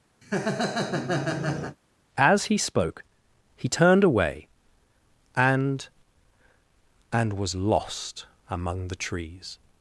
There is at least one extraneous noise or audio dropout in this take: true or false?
true